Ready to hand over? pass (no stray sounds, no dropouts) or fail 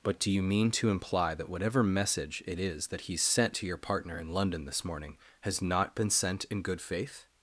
pass